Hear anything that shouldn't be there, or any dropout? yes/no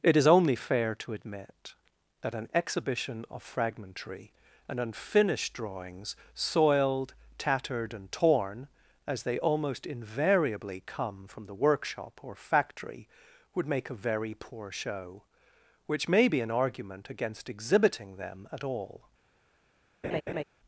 yes